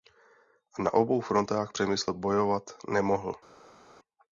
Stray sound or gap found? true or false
false